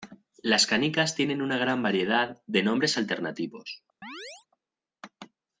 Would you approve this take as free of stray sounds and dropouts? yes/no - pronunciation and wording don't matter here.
no